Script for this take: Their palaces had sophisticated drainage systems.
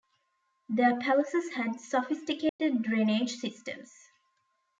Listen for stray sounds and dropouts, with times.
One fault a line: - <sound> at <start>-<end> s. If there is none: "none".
- dropout at 2.5-2.6 s